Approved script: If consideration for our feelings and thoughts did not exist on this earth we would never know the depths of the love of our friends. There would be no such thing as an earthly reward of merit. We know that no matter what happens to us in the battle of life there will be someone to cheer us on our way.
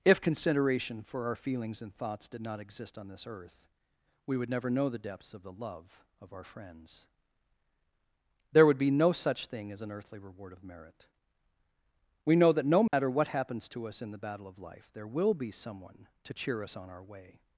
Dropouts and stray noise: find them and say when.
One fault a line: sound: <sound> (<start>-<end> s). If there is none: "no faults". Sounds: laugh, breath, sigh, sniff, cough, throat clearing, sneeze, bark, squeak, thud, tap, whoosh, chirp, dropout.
sound: dropout (12.9-12.9 s)